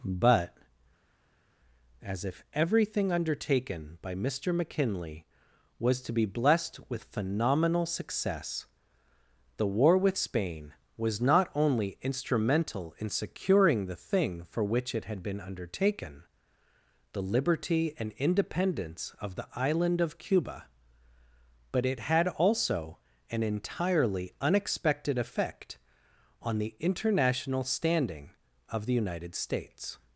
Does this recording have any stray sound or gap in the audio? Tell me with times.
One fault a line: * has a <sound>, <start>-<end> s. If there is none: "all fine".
all fine